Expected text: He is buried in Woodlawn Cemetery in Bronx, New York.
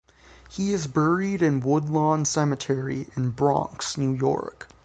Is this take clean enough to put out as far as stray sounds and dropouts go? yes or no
yes